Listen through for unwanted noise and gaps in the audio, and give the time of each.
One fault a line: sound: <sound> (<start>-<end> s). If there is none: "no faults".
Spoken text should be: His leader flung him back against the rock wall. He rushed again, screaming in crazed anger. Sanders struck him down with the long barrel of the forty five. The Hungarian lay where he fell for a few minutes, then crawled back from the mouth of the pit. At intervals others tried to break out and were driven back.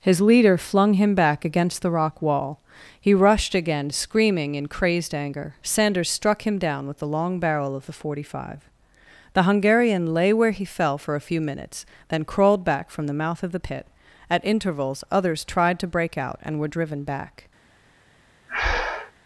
sound: breath (18.5-19.1 s)